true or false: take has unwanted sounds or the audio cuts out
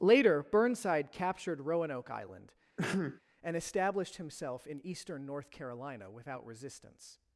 true